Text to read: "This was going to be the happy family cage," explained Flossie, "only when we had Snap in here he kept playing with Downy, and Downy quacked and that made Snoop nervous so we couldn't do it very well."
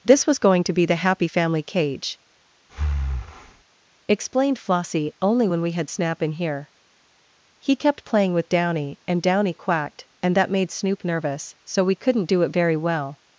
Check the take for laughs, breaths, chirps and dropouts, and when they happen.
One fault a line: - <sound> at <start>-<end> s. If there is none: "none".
- breath at 2.7-3.6 s